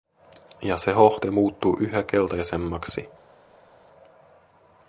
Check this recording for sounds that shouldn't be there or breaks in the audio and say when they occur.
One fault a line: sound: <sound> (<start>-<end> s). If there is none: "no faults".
no faults